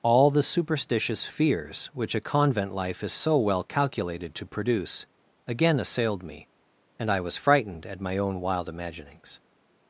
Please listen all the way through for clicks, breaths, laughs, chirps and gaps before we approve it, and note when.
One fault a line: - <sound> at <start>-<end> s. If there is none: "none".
none